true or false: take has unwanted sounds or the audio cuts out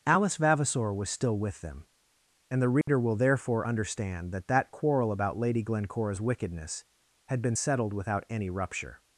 true